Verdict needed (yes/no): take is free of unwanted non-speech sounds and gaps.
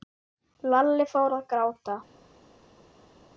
yes